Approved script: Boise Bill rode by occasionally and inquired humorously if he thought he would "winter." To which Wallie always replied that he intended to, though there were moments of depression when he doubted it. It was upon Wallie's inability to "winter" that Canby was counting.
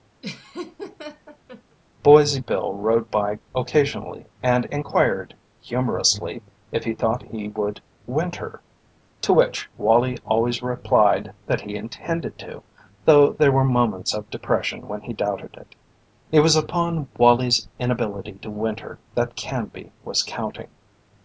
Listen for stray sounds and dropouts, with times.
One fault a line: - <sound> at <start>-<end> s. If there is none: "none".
- laugh at 0.2-1.8 s